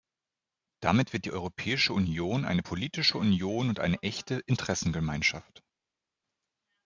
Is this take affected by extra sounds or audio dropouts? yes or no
no